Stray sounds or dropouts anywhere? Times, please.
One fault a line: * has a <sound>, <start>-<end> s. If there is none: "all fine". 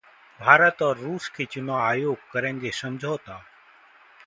all fine